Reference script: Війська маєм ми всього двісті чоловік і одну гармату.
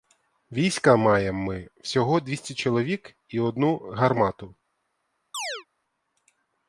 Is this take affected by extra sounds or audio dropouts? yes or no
yes